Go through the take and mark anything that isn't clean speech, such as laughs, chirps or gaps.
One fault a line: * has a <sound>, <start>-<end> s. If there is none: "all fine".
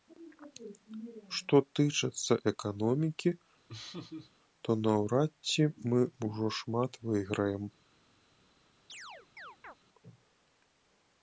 * has a laugh, 3.7-4.3 s
* has a chirp, 8.9-9.8 s